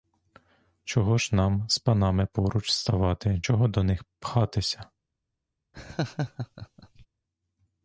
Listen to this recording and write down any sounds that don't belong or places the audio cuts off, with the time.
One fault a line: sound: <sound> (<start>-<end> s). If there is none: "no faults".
sound: laugh (5.7-7.1 s)